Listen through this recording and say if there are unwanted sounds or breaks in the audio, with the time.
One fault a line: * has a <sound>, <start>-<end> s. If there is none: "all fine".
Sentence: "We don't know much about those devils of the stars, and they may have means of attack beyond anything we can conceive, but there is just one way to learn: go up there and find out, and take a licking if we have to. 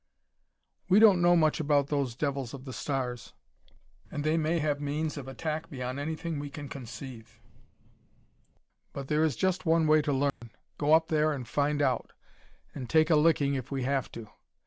* has a dropout, 10.3-10.4 s